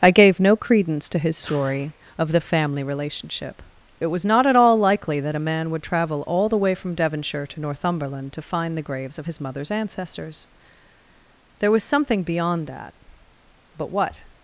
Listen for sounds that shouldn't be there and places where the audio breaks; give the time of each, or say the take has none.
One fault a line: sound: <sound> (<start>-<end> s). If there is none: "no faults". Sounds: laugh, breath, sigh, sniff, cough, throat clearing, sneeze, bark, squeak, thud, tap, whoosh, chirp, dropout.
no faults